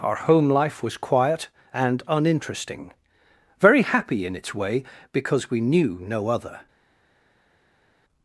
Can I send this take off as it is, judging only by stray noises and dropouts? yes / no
yes